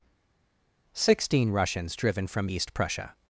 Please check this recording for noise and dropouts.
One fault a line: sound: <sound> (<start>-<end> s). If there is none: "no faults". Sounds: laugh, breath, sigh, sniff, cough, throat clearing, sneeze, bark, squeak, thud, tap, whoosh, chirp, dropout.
no faults